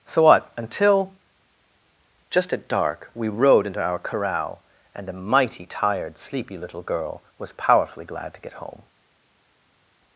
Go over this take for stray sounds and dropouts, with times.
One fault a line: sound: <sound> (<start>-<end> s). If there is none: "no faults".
no faults